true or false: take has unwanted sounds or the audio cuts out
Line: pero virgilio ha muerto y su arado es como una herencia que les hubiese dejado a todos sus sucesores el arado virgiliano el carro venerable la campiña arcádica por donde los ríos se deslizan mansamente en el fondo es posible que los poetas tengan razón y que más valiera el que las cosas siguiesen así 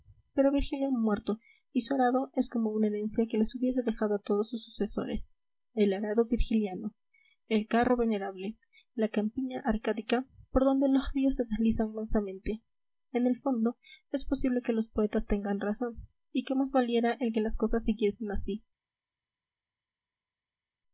false